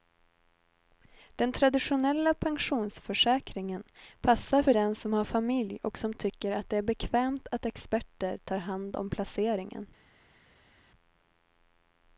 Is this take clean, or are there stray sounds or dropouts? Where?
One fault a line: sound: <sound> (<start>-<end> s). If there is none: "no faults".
no faults